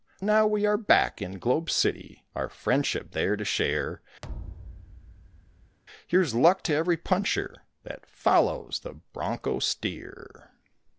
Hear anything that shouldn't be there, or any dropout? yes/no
yes